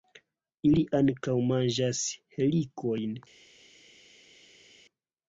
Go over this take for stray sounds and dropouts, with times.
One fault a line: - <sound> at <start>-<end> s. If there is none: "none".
none